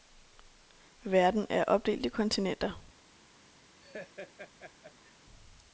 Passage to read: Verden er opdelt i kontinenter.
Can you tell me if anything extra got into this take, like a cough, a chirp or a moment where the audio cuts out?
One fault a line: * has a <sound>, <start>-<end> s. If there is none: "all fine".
* has a laugh, 3.8-5.2 s